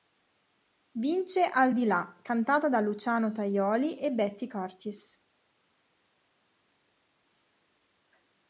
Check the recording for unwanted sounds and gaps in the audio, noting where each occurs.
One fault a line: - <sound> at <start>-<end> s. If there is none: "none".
none